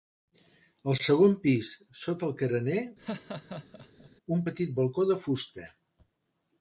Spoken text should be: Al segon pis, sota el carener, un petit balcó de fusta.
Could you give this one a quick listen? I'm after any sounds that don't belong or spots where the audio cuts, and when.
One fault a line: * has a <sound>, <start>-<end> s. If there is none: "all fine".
* has a laugh, 3.0-4.1 s